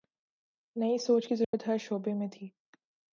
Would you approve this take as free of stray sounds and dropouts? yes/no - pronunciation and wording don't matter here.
no